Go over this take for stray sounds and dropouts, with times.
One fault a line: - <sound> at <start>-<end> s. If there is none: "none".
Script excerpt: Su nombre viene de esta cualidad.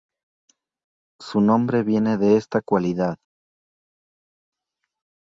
none